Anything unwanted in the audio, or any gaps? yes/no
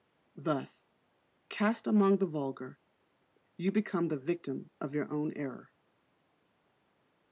no